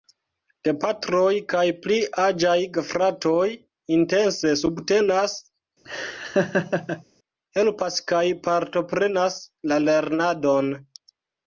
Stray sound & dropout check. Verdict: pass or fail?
fail